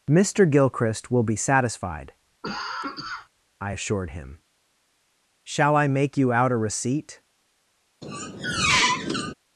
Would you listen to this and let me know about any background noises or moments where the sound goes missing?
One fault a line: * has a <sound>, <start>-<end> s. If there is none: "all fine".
* has a cough, 2.4-3.3 s
* has a squeak, 8.0-9.3 s